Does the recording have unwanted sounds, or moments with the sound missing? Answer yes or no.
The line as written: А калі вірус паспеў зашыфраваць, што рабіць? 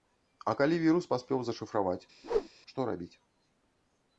yes